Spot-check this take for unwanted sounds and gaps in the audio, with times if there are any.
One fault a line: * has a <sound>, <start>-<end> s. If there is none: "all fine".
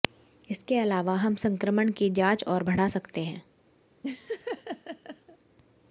* has a laugh, 4.0-5.4 s